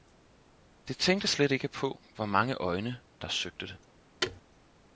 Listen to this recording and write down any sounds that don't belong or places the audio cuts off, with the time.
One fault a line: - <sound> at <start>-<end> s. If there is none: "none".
- thud at 4.2-4.4 s